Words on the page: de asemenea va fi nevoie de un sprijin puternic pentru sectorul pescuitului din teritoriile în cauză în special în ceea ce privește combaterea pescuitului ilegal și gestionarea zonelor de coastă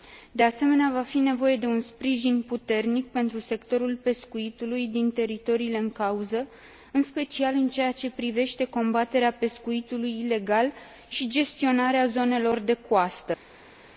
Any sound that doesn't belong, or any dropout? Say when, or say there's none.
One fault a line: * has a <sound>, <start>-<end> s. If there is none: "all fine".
all fine